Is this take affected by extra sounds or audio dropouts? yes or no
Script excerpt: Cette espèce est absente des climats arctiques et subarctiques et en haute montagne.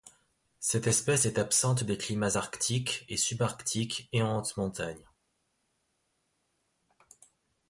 no